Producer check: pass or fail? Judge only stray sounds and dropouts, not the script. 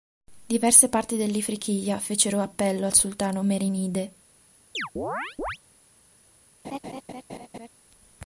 fail